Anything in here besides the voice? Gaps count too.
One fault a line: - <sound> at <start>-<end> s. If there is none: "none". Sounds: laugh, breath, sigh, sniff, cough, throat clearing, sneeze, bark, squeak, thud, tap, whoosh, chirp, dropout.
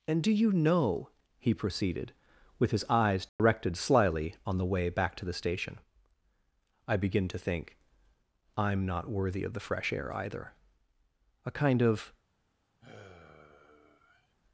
- dropout at 3.3-3.4 s
- sigh at 12.8-14.3 s